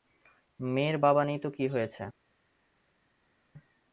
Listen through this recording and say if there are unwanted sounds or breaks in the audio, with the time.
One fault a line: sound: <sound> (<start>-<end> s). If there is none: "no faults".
no faults